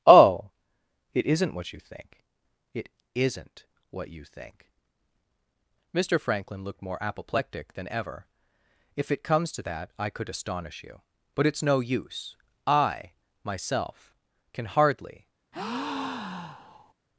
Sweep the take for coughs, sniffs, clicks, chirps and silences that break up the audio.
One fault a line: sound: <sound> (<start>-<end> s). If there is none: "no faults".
sound: breath (15.5-16.9 s)